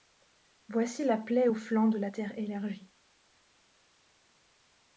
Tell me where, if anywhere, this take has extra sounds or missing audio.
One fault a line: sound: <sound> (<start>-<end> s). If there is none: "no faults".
no faults